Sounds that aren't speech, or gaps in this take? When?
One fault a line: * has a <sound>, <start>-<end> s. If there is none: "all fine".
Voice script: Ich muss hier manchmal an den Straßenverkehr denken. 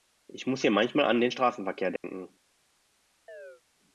* has a dropout, 2.0-2.0 s
* has a chirp, 3.3-3.6 s